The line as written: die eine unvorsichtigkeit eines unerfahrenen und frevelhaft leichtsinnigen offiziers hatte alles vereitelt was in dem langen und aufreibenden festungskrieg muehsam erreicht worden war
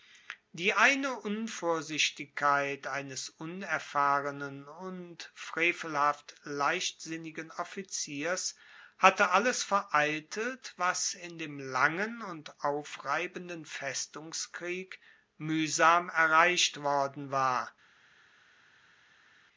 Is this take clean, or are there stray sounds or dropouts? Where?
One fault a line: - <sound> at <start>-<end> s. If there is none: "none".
none